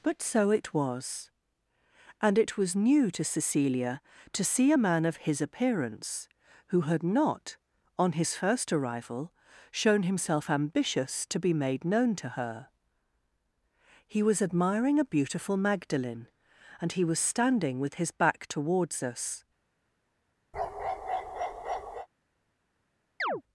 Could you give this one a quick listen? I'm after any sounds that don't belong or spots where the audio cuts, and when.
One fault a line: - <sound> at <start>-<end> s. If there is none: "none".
- bark at 20.5-22.1 s
- chirp at 23.2-23.4 s